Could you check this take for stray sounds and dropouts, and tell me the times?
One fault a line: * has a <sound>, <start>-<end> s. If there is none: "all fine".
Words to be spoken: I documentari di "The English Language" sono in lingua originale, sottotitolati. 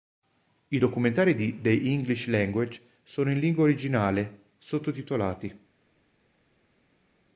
all fine